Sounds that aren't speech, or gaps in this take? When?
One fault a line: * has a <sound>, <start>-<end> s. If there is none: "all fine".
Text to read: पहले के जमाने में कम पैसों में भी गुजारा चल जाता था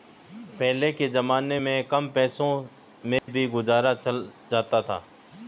* has a dropout, 3.2-3.3 s